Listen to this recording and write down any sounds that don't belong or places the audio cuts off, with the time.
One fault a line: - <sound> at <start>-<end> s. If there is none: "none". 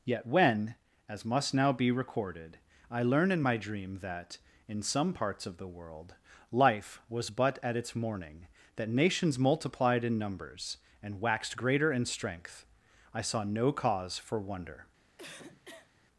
- cough at 15.2-15.9 s